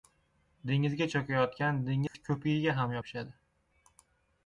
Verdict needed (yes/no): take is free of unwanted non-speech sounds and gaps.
no